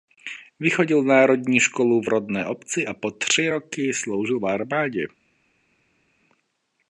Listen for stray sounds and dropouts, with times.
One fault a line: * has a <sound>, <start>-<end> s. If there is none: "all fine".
all fine